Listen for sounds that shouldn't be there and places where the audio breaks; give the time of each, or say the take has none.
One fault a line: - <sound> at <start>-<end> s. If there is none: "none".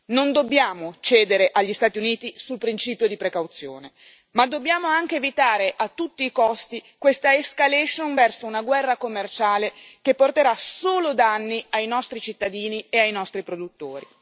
none